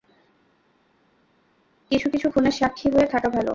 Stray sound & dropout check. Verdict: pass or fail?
pass